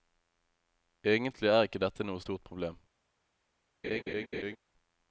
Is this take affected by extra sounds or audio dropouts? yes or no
yes